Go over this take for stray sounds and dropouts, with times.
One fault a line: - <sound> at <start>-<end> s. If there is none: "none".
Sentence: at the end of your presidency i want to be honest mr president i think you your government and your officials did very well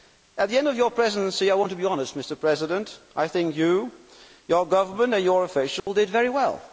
- dropout at 5.8-5.9 s